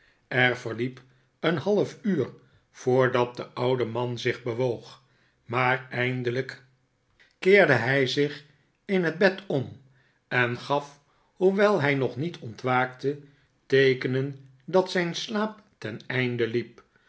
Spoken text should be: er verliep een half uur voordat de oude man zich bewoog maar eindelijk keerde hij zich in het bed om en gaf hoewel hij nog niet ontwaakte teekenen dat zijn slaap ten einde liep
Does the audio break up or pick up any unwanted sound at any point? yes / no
no